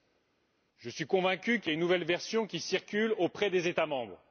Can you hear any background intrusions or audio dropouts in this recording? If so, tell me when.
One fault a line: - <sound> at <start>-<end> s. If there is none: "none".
none